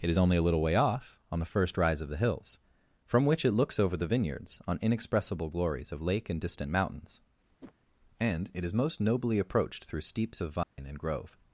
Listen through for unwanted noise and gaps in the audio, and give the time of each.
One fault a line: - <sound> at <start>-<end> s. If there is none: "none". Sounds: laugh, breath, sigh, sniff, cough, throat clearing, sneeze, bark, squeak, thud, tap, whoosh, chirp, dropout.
- whoosh at 7.6-7.7 s
- dropout at 10.6-10.8 s